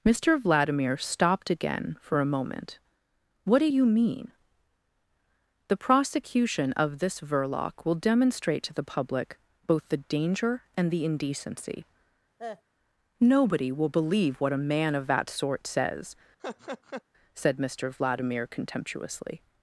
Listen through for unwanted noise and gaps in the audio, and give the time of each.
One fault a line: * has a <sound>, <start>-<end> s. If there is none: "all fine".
* has a cough, 12.4-12.6 s
* has a laugh, 16.4-17.0 s